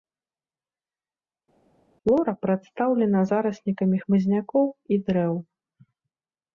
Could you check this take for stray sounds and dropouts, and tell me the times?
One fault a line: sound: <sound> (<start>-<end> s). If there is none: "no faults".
no faults